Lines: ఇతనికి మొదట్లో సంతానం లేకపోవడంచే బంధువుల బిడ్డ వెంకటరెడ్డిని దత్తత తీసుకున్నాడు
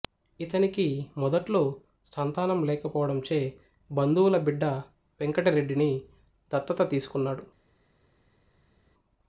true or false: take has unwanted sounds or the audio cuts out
false